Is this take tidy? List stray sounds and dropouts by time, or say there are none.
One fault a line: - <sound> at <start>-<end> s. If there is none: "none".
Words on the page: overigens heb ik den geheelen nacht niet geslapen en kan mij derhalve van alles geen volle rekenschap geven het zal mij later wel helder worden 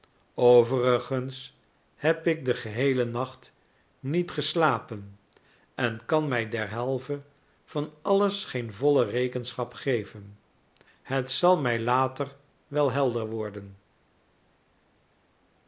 none